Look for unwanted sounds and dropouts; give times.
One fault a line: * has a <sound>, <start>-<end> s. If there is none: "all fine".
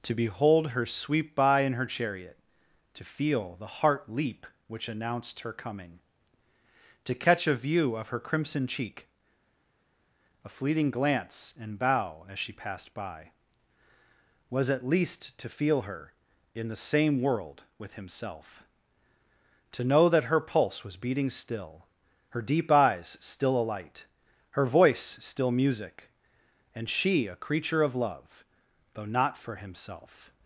all fine